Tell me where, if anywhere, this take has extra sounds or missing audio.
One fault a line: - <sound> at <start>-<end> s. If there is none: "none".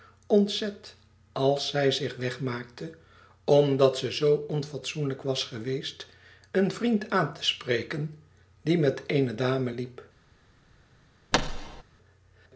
- thud at 11.3-11.8 s